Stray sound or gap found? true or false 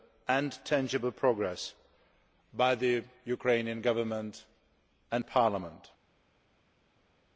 false